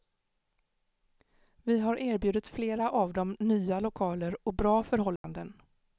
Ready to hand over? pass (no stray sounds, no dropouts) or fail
fail